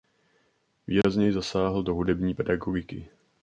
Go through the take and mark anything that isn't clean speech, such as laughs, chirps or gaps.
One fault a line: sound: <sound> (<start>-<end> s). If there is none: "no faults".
sound: dropout (1.0-1.0 s)